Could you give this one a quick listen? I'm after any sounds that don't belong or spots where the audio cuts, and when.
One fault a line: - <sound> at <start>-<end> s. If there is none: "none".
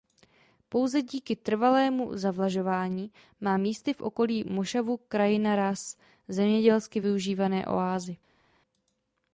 none